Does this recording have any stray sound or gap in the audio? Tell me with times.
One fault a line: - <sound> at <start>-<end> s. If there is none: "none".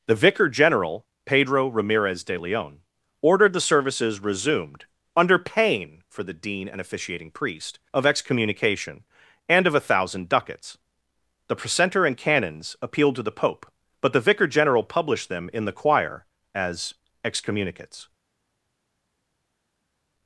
none